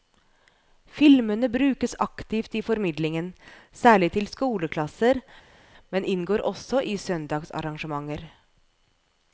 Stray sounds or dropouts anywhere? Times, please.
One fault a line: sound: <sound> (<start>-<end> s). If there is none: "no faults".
no faults